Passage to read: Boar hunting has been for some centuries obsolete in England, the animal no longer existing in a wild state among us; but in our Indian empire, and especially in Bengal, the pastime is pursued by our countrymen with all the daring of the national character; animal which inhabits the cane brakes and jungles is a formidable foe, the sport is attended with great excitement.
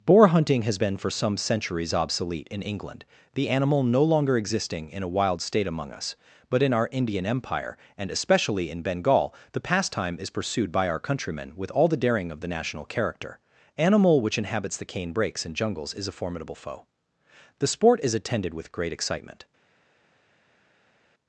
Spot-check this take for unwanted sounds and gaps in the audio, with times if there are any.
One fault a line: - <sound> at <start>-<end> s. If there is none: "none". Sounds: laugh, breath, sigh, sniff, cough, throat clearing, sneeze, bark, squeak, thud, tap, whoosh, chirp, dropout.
none